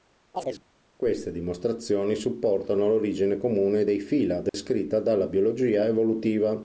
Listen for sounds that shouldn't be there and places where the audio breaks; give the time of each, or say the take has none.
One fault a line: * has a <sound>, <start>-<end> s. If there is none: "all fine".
* has a chirp, 0.3-0.6 s
* has a dropout, 4.5-4.5 s